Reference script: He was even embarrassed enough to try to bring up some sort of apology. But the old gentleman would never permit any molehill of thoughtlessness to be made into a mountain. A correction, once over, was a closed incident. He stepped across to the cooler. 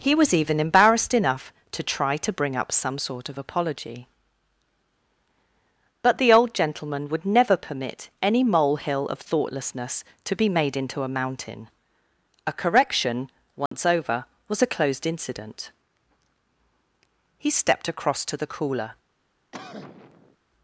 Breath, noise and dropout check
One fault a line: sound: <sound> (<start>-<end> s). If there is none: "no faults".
sound: dropout (13.7-13.7 s)
sound: cough (19.5-20.4 s)